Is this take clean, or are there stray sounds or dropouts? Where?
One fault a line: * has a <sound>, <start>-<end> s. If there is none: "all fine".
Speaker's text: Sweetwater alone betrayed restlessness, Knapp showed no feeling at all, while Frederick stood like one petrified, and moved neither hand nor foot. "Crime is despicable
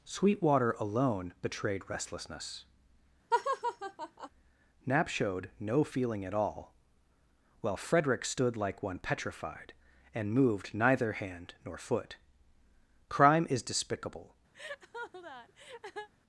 * has a laugh, 3.3-4.3 s
* has a laugh, 14.5-16.1 s